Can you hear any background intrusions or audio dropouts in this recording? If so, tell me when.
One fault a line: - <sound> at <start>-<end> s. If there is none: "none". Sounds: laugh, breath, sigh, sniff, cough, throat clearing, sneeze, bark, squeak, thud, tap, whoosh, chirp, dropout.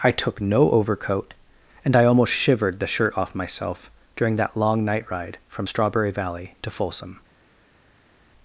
none